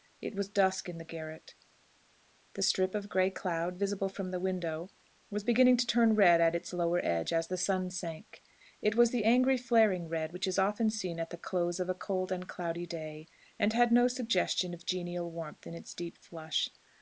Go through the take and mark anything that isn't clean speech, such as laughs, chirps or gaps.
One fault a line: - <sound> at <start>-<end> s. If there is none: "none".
none